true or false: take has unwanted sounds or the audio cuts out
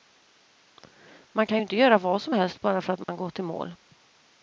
true